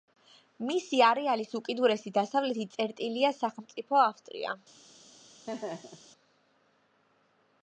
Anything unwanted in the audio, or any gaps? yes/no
yes